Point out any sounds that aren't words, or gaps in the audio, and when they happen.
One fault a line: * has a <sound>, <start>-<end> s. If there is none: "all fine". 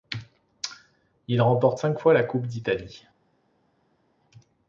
all fine